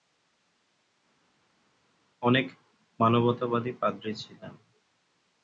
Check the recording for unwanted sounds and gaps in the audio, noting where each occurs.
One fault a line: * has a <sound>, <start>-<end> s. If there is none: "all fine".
all fine